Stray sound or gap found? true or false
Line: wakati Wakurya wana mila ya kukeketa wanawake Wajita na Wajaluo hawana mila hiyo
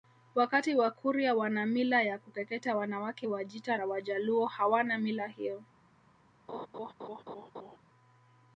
true